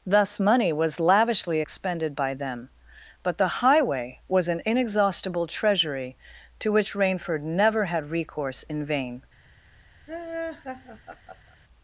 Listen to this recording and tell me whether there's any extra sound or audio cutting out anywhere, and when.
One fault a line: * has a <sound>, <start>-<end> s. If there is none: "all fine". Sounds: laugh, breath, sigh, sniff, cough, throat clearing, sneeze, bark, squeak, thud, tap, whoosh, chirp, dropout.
* has a laugh, 10.1-11.6 s